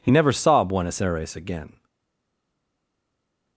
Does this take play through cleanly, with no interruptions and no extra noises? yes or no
yes